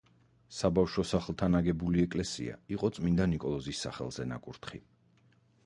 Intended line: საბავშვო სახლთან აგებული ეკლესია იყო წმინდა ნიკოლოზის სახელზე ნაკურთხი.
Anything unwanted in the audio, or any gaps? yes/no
no